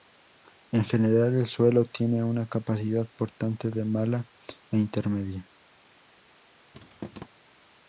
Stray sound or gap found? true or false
true